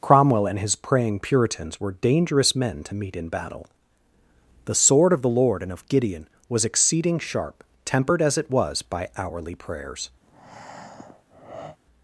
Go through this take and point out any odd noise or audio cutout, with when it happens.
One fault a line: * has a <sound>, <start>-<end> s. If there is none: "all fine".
* has a breath, 10.2-11.8 s